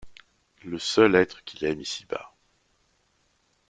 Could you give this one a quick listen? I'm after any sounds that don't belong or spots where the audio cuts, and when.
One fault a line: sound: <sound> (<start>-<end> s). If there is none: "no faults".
no faults